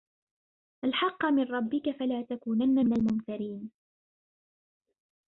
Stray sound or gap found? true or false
false